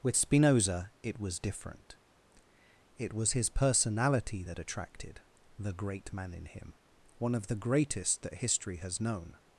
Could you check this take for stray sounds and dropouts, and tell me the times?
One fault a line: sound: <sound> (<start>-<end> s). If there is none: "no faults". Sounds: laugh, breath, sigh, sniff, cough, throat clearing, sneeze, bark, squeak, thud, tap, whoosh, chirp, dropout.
no faults